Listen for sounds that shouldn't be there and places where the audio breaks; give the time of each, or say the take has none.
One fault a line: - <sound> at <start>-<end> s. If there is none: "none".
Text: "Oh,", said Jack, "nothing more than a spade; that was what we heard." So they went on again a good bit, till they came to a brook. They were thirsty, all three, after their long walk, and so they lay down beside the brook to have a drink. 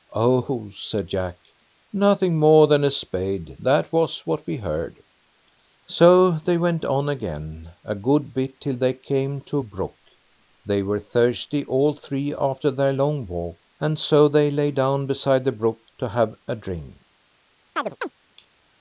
- chirp at 17.8-18.1 s